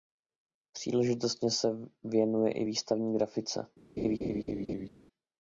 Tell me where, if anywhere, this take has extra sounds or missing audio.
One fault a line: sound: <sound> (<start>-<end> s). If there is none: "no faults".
sound: laugh (4.0-4.9 s)